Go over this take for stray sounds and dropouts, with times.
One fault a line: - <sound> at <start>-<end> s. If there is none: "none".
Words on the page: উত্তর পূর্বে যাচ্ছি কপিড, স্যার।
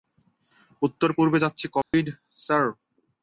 - dropout at 1.8-1.9 s